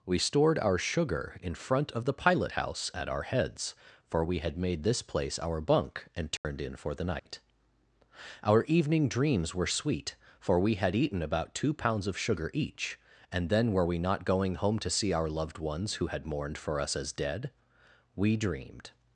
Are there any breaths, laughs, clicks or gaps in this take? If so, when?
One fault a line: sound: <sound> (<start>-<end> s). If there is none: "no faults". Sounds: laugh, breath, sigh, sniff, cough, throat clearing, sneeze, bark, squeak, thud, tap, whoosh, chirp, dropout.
sound: dropout (6.4-6.4 s)
sound: dropout (7.2-7.3 s)